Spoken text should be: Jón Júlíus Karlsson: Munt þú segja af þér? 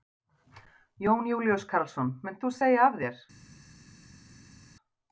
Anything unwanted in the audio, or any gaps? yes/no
no